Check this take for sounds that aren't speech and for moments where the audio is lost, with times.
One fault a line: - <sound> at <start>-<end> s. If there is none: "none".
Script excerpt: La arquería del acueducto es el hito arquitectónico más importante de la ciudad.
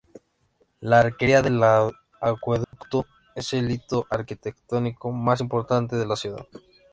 - dropout at 2.6-2.7 s